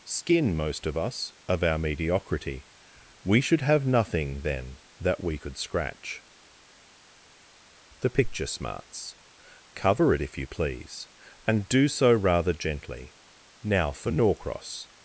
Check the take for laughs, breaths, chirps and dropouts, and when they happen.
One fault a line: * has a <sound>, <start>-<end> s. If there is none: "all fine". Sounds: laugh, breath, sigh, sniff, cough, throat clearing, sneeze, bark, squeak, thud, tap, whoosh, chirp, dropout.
all fine